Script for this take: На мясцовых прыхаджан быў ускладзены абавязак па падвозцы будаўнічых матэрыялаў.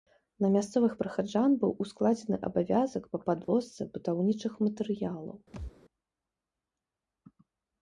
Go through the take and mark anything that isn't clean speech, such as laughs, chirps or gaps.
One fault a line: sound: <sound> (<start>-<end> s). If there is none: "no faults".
sound: dropout (3.4-3.5 s)
sound: thud (5.5-5.7 s)